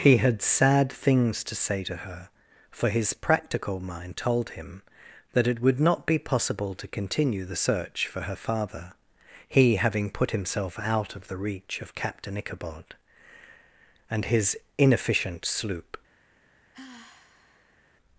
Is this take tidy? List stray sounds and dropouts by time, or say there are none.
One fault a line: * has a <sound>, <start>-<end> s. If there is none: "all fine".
* has a sigh, 16.7-17.8 s